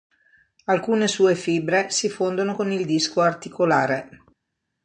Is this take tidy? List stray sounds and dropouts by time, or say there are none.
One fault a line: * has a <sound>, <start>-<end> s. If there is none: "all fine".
all fine